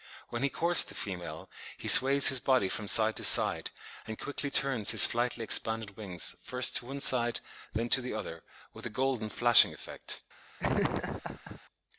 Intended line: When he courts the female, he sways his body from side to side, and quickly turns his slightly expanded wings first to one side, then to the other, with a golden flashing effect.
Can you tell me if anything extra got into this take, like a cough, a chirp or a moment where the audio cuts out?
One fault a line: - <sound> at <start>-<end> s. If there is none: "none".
- laugh at 10.6-11.6 s